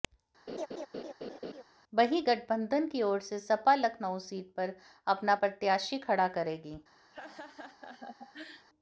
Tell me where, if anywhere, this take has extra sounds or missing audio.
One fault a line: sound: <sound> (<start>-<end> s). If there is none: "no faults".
sound: laugh (0.5-1.6 s)
sound: laugh (7.1-8.7 s)